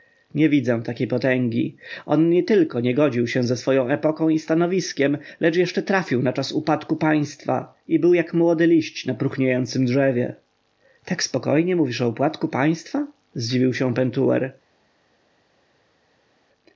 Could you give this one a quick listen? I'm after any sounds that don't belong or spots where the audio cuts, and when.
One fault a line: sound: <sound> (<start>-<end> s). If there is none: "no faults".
no faults